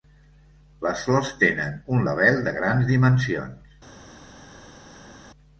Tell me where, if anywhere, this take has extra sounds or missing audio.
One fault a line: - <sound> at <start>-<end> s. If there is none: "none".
none